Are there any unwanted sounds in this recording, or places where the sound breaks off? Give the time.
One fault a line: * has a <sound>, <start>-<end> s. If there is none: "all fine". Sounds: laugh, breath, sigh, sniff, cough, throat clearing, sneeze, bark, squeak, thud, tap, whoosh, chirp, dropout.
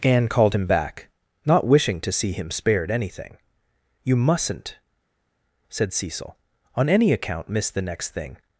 all fine